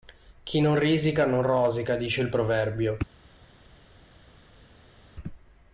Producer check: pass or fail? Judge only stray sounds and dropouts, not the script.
pass